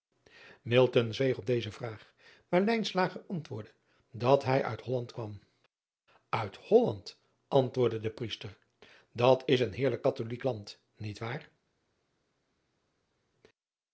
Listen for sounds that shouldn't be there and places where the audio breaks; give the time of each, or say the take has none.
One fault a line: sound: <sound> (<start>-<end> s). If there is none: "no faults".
no faults